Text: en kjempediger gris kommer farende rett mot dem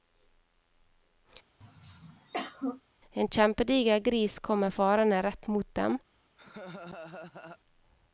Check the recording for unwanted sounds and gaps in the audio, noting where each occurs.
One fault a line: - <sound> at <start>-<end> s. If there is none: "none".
- throat clearing at 1.6-2.8 s
- laugh at 6.4-7.6 s